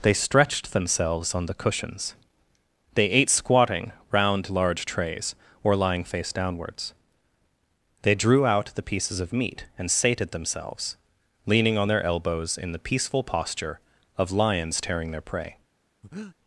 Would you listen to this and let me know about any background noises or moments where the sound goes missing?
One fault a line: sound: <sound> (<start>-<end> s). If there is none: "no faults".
sound: breath (16.0-16.4 s)